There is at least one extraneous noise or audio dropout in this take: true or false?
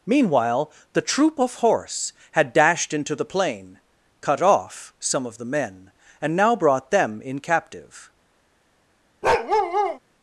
true